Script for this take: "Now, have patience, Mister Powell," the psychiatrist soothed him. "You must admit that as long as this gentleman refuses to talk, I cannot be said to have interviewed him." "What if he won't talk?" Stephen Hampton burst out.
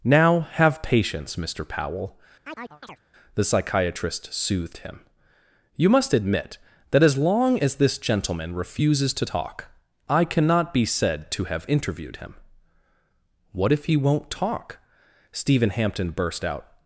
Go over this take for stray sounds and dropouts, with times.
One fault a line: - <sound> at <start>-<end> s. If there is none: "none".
- chirp at 2.4-3.0 s